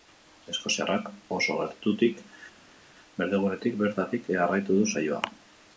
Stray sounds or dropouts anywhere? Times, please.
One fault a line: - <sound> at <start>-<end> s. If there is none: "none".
none